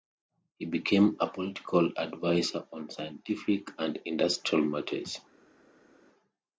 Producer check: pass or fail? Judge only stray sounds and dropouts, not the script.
pass